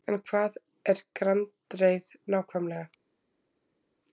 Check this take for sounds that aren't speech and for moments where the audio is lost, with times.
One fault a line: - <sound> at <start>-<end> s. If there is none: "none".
none